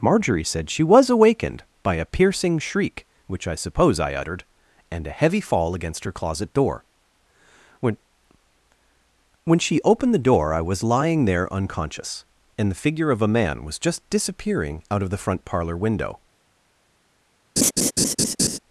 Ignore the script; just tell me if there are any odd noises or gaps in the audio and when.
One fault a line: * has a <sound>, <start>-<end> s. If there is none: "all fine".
* has a laugh, 17.6-18.6 s